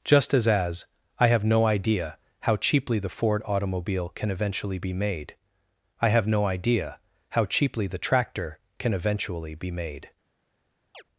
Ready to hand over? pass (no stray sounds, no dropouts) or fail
fail